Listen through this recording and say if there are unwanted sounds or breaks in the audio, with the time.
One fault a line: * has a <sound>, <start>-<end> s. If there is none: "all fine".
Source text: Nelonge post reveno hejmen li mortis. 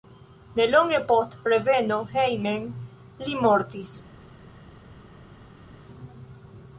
all fine